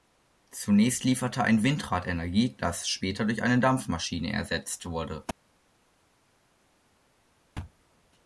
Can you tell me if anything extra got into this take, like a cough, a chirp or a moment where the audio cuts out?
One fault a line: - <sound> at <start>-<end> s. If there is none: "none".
none